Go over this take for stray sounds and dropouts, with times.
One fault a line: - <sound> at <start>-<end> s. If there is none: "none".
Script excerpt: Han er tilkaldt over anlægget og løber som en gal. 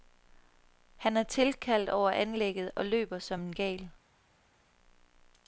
none